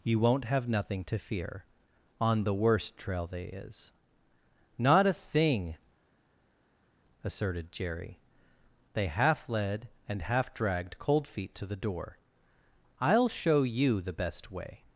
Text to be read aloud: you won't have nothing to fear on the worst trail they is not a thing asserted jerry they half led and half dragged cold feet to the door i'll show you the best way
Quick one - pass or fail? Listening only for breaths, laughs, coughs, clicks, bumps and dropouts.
pass